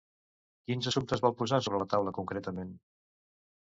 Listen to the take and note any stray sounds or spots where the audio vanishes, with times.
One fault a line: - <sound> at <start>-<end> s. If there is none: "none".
none